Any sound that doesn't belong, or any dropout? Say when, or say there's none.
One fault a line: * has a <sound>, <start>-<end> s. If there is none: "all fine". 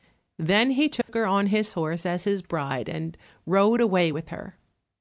* has a dropout, 1.0-1.1 s